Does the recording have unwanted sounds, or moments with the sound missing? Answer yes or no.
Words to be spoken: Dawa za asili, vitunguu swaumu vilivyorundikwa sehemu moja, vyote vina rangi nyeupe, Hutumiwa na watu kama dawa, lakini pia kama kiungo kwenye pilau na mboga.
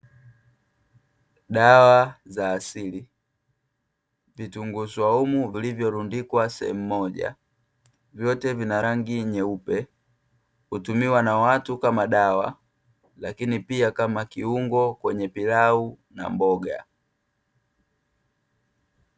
no